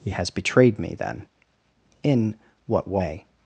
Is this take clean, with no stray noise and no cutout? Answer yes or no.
yes